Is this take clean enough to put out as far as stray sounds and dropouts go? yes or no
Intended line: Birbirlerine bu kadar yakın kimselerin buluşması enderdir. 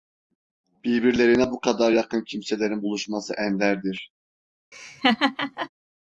no